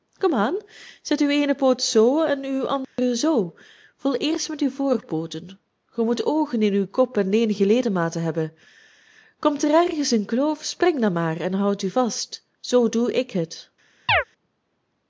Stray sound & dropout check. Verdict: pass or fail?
fail